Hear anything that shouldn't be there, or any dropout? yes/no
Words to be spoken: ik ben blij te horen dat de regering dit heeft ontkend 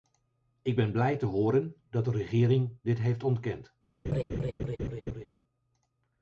yes